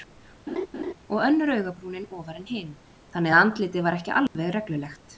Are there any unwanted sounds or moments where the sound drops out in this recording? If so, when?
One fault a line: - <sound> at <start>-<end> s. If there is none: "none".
- laugh at 0.5-0.9 s
- dropout at 4.3-4.3 s